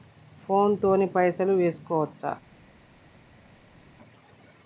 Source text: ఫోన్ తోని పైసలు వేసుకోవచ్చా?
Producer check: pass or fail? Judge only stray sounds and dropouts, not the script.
pass